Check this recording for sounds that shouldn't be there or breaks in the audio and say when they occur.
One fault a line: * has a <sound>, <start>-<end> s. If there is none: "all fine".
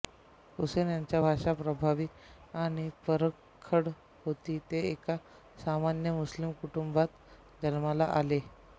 all fine